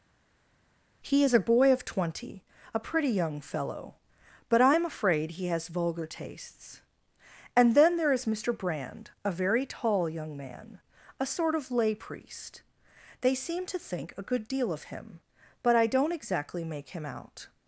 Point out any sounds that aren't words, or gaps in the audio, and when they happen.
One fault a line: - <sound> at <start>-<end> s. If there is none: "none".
none